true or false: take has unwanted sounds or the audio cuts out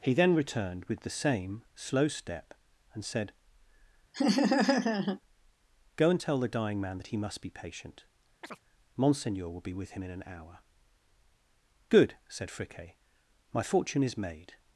true